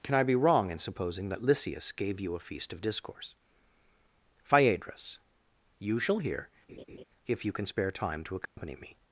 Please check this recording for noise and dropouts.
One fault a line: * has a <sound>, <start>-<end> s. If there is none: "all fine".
* has a laugh, 6.7-7.0 s
* has a dropout, 8.5-8.6 s